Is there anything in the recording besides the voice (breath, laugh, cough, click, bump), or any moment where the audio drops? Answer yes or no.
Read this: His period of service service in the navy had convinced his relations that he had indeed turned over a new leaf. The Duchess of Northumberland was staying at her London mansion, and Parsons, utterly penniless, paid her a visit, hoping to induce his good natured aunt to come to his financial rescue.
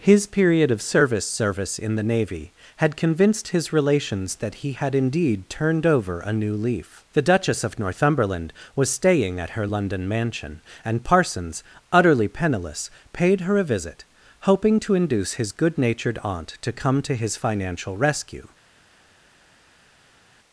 no